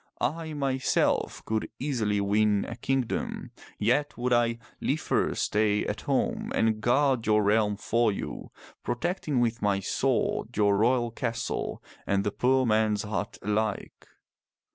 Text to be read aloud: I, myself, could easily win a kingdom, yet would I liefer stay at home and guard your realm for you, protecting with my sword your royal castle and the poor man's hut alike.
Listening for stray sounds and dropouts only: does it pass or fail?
pass